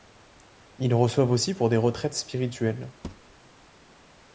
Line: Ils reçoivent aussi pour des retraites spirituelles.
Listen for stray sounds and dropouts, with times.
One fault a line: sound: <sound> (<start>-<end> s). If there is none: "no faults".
sound: thud (3.0-3.4 s)